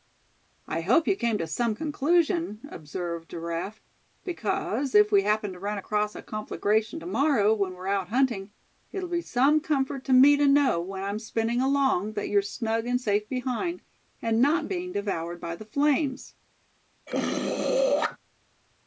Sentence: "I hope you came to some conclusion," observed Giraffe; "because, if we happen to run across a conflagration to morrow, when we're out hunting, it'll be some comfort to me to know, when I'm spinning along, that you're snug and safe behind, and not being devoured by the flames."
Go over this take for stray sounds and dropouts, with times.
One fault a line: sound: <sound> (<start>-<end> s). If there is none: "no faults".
sound: throat clearing (17.1-18.2 s)